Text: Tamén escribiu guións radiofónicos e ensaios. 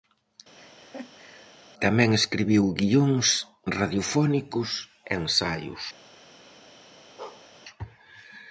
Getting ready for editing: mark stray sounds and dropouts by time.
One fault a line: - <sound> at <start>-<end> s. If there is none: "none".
- laugh at 0.6-1.5 s
- bark at 7.2-7.5 s